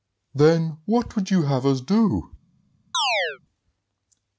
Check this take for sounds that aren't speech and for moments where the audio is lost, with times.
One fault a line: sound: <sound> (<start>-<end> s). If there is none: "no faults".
sound: chirp (2.9-3.4 s)